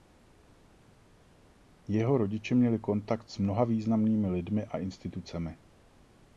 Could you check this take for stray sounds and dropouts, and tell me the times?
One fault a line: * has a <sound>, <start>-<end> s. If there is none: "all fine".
all fine